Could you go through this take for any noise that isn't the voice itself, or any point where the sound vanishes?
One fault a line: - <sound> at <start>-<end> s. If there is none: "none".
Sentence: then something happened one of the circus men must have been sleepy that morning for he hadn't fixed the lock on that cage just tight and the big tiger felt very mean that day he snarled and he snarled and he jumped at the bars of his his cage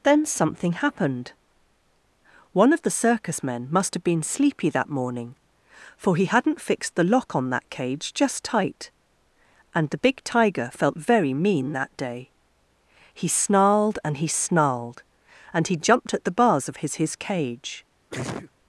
- sneeze at 18.1-18.5 s